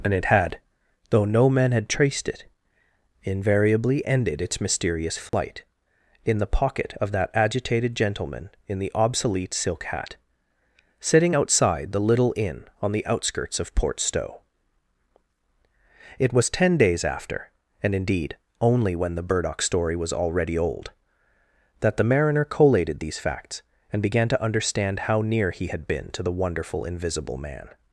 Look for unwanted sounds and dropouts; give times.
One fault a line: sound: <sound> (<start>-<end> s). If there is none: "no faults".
sound: dropout (5.3-5.3 s)